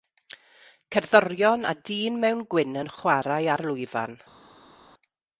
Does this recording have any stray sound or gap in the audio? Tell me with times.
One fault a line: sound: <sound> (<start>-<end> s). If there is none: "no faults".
no faults